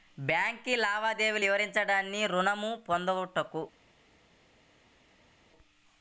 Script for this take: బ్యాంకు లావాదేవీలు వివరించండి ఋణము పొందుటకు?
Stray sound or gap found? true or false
false